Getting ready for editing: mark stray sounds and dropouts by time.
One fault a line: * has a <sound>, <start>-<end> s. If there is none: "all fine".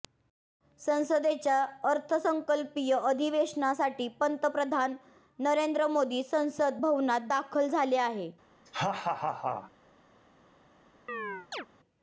* has a laugh, 8.7-9.7 s
* has a chirp, 11.1-11.7 s